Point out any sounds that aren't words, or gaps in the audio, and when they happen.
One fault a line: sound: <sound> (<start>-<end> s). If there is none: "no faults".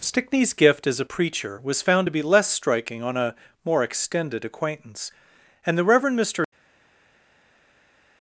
no faults